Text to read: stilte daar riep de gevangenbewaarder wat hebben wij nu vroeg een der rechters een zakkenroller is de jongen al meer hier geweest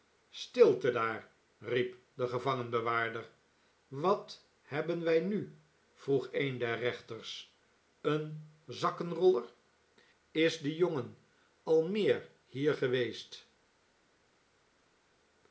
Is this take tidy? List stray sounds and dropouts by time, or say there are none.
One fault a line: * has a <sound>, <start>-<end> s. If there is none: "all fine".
all fine